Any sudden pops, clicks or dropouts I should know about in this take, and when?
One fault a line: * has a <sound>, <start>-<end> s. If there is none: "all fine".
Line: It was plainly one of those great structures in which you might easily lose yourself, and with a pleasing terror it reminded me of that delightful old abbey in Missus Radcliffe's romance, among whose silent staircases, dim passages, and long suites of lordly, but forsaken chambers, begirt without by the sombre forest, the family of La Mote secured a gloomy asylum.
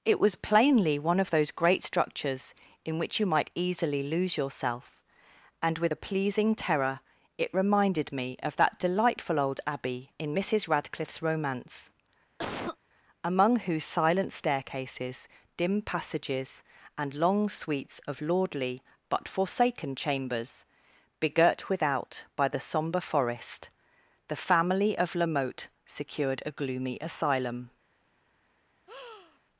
* has a cough, 12.4-12.8 s
* has a breath, 28.9-29.4 s